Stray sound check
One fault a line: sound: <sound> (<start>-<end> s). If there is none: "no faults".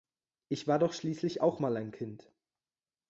no faults